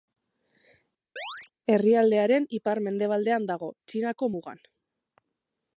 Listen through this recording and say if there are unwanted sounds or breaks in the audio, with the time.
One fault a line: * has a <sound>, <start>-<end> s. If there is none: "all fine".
* has a chirp, 1.2-1.5 s